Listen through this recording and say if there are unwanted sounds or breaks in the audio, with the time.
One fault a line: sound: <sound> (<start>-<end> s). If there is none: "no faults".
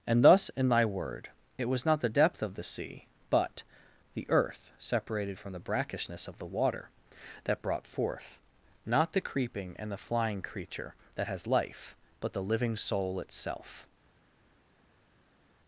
no faults